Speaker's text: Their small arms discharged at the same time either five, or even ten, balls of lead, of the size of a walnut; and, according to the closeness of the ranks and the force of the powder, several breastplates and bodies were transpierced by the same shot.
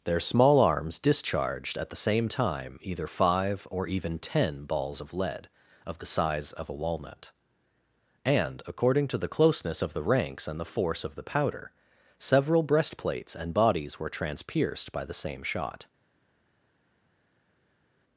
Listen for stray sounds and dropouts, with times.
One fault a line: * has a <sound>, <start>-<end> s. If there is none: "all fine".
all fine